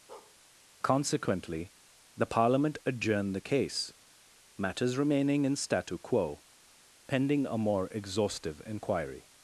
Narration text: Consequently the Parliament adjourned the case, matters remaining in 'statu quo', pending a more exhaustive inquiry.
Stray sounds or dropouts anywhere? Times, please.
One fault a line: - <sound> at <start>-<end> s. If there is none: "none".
- bark at 0.1-0.4 s